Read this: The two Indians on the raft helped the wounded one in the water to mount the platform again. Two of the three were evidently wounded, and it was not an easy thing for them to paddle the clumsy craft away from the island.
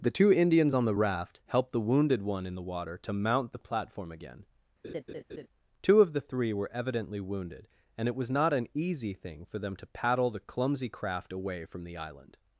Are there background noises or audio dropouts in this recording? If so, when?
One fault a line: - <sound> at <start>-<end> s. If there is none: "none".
- laugh at 4.8-5.5 s